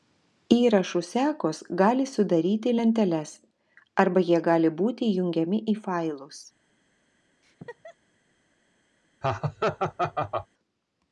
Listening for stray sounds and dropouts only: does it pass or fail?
fail